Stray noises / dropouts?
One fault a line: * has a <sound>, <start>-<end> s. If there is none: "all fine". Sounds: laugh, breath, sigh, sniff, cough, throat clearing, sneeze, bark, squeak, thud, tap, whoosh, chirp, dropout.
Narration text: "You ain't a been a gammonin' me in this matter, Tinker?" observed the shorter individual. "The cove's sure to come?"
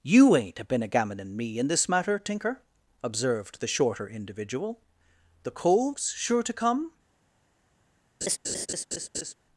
* has a laugh, 8.2-9.3 s